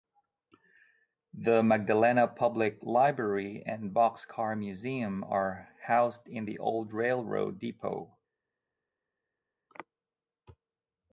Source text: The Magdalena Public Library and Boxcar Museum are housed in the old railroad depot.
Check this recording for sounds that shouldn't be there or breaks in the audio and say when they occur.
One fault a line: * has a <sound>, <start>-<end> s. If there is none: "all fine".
all fine